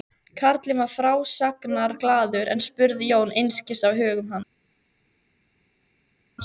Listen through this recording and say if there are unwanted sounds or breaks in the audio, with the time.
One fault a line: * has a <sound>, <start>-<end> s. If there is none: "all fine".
all fine